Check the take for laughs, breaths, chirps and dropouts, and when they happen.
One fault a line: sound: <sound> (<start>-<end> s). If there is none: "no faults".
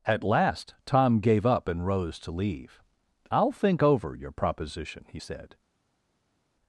no faults